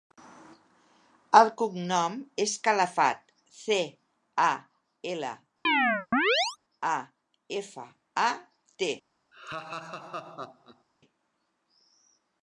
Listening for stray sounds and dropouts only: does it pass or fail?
fail